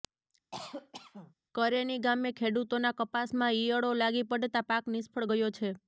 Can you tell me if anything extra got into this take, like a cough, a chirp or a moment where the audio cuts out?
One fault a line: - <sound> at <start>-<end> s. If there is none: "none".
- cough at 0.5-1.3 s